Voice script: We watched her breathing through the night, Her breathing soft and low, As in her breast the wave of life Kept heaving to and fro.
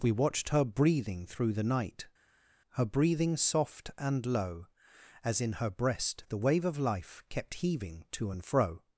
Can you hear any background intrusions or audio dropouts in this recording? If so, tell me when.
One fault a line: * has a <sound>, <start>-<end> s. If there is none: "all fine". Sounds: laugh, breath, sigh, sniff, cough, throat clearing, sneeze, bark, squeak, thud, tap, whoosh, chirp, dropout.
all fine